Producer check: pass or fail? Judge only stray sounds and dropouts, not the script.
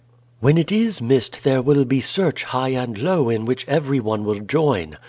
pass